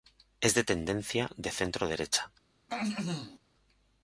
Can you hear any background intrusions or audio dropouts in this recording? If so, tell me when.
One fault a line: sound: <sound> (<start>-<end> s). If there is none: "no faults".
sound: throat clearing (2.7-3.4 s)